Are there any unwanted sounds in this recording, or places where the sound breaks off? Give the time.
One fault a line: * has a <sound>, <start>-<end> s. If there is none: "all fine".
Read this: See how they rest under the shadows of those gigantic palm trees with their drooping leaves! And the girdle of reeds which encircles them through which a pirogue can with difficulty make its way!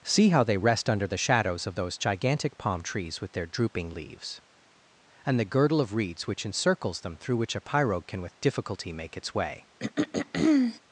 * has a throat clearing, 9.8-10.8 s